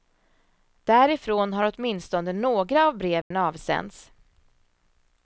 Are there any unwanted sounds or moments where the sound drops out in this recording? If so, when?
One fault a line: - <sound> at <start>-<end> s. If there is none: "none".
- dropout at 3.2-3.3 s